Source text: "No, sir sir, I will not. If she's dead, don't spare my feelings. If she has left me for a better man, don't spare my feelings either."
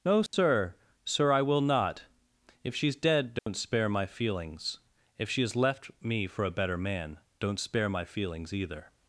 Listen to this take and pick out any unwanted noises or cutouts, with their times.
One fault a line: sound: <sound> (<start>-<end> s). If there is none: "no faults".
sound: dropout (0.3-0.3 s)
sound: dropout (3.4-3.5 s)